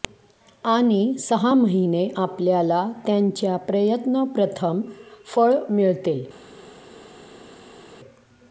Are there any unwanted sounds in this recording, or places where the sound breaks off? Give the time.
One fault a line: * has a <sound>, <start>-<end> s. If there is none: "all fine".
all fine